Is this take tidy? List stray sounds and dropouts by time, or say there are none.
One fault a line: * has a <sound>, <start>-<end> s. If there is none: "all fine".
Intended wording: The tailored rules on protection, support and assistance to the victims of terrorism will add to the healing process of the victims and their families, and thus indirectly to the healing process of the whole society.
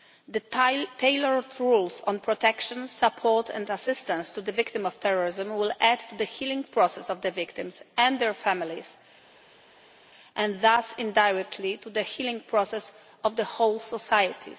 all fine